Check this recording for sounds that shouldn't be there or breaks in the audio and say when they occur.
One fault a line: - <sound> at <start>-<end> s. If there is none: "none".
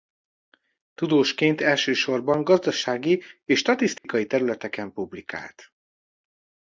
- dropout at 4.0-4.0 s